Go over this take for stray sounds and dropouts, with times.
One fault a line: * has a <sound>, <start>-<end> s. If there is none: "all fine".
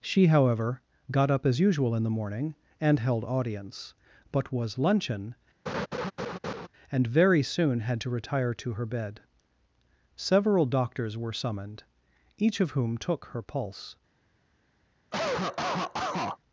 * has a laugh, 5.7-6.7 s
* has a cough, 15.1-16.4 s